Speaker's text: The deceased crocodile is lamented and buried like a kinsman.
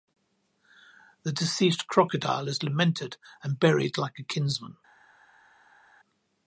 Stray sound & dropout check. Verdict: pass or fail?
pass